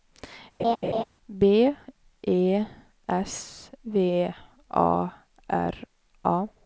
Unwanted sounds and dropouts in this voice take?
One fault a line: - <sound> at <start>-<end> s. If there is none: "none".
- laugh at 0.6-1.0 s